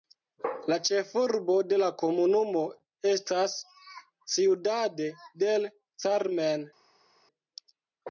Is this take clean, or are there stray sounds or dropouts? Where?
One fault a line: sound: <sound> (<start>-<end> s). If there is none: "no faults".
no faults